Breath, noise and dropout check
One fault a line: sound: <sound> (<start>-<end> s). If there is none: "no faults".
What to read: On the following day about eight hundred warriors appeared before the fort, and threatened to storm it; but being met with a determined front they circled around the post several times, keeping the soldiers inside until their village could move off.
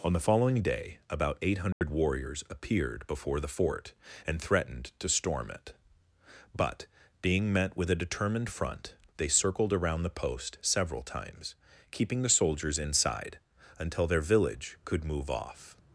sound: dropout (1.7-1.8 s)